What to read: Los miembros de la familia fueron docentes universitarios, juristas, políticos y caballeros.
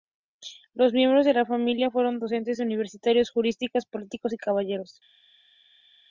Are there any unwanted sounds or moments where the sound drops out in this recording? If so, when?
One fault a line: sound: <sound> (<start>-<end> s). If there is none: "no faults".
no faults